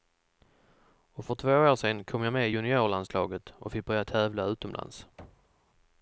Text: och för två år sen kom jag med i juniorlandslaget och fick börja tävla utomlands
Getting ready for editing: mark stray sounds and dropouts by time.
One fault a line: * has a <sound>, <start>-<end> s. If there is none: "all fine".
* has a thud, 5.2-5.6 s